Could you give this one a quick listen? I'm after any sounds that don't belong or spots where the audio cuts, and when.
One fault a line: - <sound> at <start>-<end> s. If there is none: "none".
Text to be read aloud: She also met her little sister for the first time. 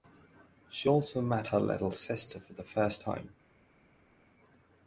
none